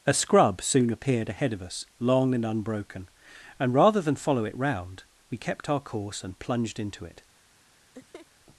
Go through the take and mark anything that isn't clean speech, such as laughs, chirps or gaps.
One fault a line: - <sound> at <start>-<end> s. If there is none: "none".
- laugh at 7.9-8.3 s